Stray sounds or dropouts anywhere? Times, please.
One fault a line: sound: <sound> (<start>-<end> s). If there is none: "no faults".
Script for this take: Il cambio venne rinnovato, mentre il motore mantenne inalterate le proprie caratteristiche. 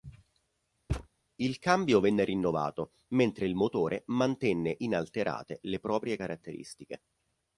sound: thud (0.9-1.1 s)